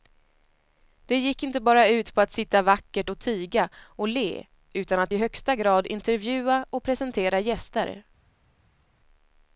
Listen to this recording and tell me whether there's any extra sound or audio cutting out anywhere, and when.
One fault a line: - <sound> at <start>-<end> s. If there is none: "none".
none